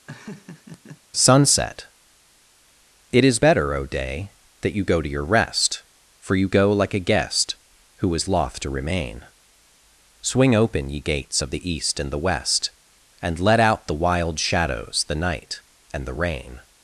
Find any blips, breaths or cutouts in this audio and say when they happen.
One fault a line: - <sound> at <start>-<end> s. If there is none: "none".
- laugh at 0.1-1.0 s